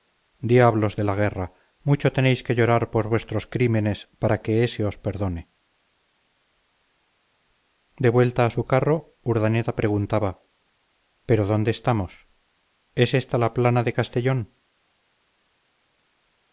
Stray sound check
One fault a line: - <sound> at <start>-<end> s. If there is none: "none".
none